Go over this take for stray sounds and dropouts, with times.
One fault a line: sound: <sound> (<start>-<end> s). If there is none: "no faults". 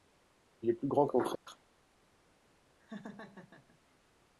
sound: dropout (1.4-1.5 s)
sound: laugh (2.8-3.8 s)